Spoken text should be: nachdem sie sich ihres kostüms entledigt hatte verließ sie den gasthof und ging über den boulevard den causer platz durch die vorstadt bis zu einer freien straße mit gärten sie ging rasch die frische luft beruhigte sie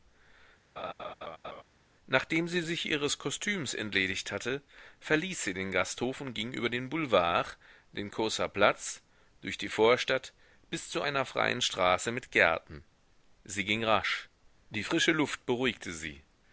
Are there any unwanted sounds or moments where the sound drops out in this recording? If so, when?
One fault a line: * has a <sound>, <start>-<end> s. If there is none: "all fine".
* has a laugh, 0.8-1.6 s